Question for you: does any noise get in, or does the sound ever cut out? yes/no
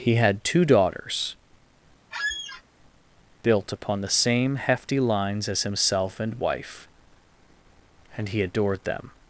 yes